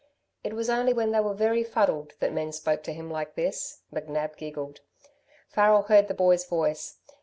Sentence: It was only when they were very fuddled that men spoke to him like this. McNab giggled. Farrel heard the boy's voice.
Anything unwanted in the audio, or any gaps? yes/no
no